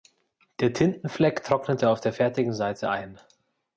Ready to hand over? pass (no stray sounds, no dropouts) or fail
pass